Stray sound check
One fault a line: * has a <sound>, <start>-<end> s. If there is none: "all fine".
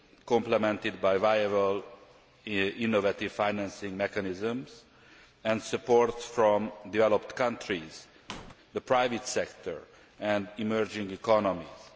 * has a squeak, 8.3-8.5 s